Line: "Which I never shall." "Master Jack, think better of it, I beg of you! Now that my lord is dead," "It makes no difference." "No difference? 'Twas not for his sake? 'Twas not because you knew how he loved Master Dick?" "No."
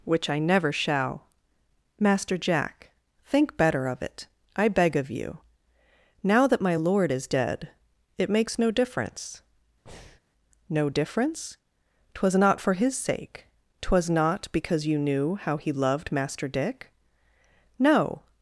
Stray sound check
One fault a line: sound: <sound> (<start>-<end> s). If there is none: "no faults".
sound: breath (9.9-10.2 s)